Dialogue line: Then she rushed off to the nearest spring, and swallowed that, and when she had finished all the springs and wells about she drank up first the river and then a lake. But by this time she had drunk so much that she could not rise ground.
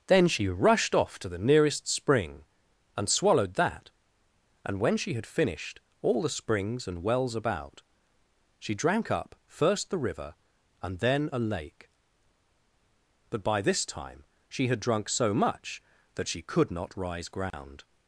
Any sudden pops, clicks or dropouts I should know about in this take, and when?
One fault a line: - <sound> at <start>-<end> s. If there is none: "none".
- dropout at 17.5-17.5 s